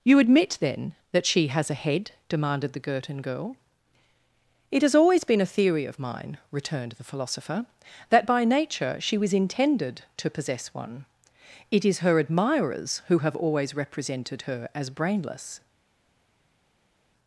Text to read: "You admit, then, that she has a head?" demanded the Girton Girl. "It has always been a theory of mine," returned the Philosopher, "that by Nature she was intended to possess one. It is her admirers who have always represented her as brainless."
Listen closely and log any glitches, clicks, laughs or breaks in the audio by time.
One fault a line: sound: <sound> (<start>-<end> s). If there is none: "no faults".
no faults